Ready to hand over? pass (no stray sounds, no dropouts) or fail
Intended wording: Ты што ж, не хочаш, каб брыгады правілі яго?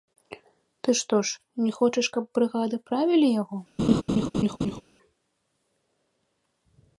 fail